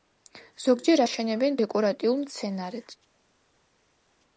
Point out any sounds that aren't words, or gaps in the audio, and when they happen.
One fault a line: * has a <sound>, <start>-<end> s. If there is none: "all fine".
all fine